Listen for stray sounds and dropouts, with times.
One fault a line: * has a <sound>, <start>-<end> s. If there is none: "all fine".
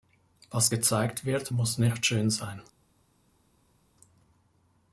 all fine